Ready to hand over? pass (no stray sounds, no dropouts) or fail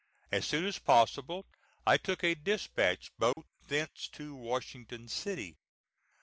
fail